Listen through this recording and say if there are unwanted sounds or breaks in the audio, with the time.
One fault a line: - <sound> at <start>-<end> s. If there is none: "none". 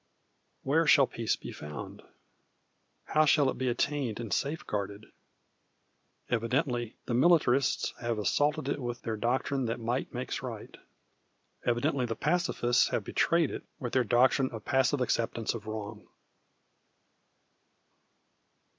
none